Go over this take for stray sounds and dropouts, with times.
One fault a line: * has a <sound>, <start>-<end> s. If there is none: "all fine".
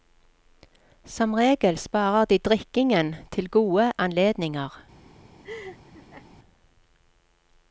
* has a laugh, 5.4-6.3 s